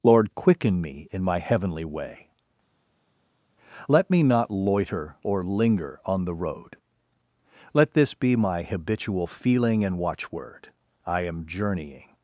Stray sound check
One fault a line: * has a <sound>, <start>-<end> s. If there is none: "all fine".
all fine